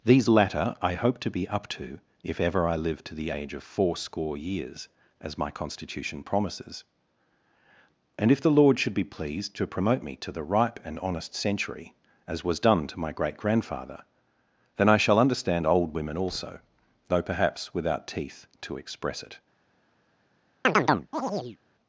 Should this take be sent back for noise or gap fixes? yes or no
yes